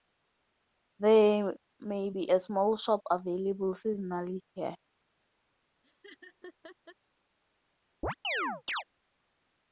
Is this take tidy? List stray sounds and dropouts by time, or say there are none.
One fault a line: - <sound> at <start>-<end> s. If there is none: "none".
- laugh at 5.8-7.0 s
- chirp at 8.0-8.8 s